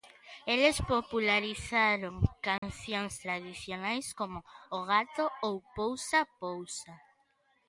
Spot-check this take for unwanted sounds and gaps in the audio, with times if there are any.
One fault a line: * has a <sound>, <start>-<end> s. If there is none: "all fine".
* has a dropout, 2.6-2.6 s